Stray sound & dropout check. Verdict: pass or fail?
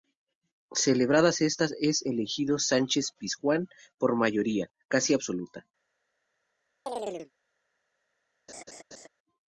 fail